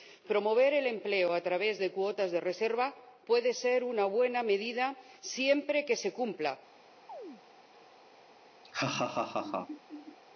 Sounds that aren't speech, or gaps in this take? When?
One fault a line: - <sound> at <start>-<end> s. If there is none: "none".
- chirp at 7.1-7.4 s
- laugh at 8.6-10.2 s